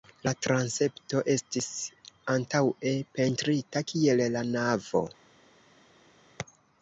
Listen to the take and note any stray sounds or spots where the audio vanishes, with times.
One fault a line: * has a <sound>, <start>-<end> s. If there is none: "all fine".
all fine